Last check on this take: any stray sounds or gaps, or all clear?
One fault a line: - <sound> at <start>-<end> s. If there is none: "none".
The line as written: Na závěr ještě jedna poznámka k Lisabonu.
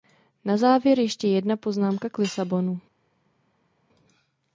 none